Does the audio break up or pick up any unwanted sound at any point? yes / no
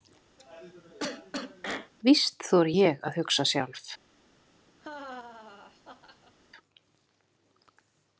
yes